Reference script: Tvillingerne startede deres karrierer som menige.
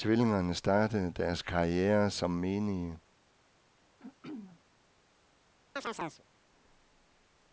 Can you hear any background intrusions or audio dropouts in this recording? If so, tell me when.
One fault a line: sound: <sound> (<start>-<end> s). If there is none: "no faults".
sound: throat clearing (4.0-4.6 s)
sound: chirp (5.8-6.2 s)